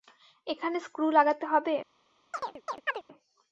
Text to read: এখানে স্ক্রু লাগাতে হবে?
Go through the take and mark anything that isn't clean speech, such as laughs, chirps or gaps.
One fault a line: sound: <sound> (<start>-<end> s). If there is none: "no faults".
sound: chirp (2.3-3.0 s)